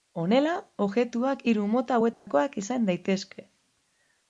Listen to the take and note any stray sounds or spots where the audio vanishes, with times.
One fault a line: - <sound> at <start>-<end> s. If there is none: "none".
- dropout at 2.1-2.3 s